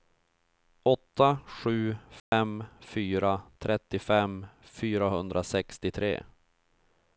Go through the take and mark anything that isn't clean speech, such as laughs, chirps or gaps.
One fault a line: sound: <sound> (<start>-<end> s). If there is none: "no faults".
sound: dropout (2.2-2.3 s)